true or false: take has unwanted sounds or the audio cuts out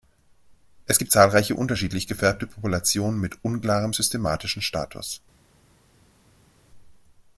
false